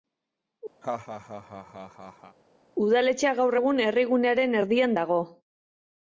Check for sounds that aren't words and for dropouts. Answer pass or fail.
fail